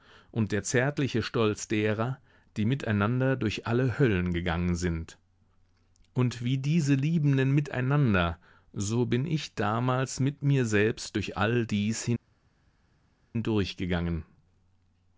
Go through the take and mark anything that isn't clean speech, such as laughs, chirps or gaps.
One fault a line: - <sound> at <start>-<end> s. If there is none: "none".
none